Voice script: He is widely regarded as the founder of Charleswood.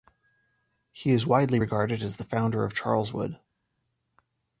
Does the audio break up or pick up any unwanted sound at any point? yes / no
no